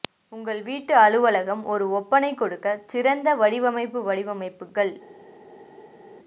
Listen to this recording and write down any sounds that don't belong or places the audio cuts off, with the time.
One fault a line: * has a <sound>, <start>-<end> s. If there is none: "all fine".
all fine